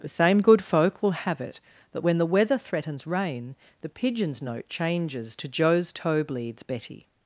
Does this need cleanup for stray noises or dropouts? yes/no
no